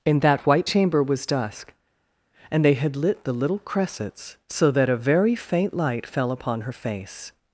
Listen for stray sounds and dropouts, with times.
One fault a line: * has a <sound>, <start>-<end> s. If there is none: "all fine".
all fine